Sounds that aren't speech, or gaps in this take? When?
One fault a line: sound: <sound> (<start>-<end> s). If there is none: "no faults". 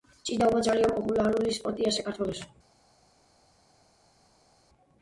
no faults